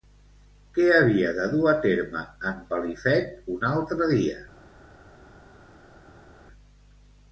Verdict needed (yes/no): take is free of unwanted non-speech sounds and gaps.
yes